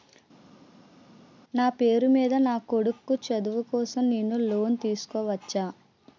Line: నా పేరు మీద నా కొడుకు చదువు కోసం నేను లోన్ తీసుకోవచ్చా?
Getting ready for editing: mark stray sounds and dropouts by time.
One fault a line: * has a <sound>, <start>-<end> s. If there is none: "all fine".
all fine